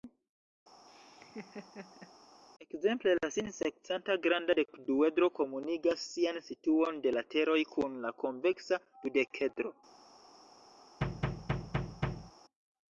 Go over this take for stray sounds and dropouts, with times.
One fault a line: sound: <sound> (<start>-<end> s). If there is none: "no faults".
sound: laugh (0.9-2.1 s)
sound: thud (11.0-12.3 s)